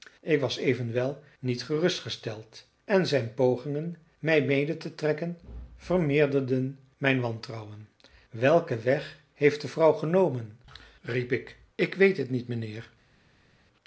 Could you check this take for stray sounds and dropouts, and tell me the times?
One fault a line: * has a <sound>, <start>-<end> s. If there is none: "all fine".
all fine